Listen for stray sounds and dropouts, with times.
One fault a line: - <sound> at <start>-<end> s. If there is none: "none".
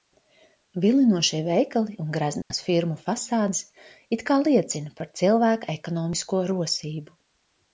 - dropout at 2.4-2.5 s